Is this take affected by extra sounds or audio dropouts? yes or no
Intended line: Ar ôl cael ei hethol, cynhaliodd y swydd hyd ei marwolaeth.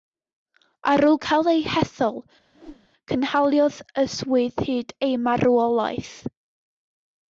yes